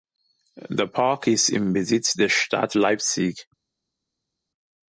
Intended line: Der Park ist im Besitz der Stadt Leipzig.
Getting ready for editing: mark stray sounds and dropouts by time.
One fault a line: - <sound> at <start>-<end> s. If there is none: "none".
none